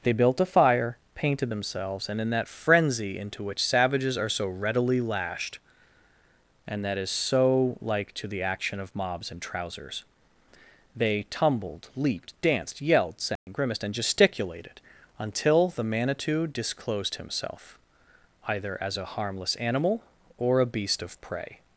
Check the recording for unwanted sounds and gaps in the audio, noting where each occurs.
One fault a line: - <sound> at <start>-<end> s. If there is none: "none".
- dropout at 13.4-13.5 s